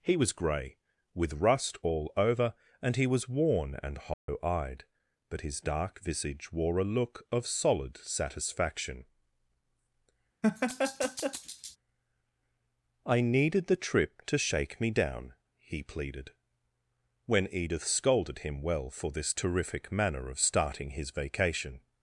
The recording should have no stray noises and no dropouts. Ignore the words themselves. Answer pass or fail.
fail